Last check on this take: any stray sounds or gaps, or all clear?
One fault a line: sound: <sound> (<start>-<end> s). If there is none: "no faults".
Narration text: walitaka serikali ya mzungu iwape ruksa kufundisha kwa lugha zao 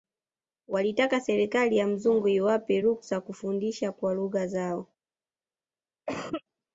sound: cough (6.1-6.4 s)